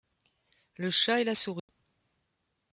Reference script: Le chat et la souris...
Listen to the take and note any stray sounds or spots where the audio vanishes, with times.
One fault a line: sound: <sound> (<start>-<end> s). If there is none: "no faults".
sound: dropout (1.6-1.7 s)